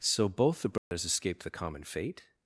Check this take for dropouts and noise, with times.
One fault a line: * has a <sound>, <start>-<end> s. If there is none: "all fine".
* has a dropout, 0.8-0.9 s